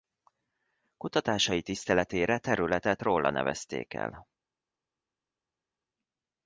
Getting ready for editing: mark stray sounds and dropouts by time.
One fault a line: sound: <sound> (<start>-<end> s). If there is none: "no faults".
no faults